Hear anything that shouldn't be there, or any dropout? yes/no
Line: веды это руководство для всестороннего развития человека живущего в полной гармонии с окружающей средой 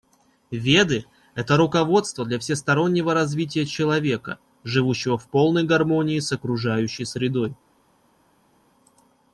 no